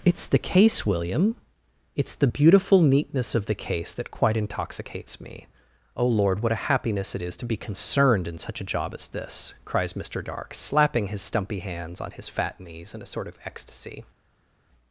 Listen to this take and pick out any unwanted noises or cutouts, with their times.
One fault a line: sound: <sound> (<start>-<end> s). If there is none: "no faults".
no faults